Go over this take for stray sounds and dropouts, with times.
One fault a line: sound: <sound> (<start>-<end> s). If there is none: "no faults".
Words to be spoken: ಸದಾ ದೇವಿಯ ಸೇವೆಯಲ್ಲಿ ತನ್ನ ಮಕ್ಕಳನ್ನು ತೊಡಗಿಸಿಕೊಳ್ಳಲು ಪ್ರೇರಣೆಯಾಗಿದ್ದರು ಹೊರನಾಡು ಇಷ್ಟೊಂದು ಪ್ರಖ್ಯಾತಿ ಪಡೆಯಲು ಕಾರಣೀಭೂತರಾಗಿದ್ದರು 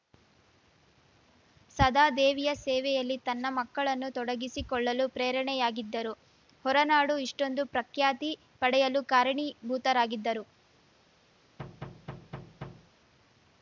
sound: thud (11.6-12.9 s)